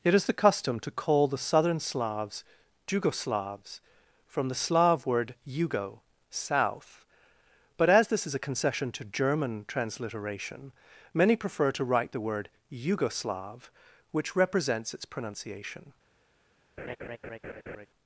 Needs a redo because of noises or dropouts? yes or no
yes